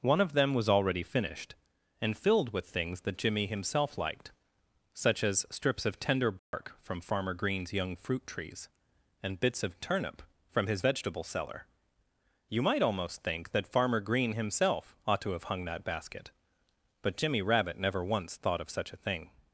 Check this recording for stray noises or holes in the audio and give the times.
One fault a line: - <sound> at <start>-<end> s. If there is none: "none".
- dropout at 6.4-6.5 s